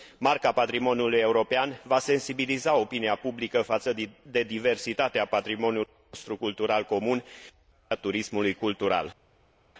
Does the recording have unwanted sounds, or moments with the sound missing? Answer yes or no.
no